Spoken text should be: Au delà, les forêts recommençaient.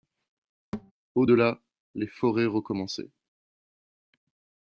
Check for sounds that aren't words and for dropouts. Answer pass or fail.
fail